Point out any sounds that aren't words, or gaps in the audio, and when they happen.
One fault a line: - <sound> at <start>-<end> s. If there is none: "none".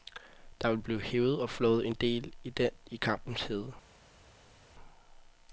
none